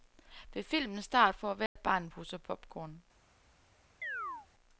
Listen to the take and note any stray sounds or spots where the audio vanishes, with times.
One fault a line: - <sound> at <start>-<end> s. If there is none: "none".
- dropout at 1.7-1.8 s
- chirp at 4.0-4.5 s